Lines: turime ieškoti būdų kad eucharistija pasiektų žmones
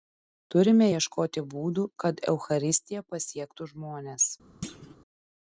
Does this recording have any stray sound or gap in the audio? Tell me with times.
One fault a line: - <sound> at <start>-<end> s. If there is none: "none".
- thud at 4.6-5.0 s